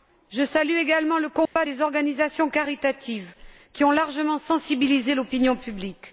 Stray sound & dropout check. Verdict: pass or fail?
fail